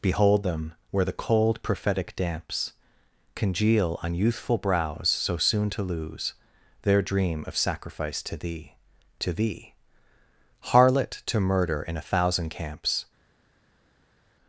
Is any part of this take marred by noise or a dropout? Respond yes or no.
no